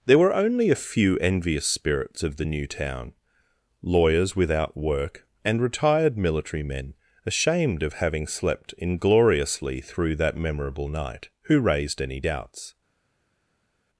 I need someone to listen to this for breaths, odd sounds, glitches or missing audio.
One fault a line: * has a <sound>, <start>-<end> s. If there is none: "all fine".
all fine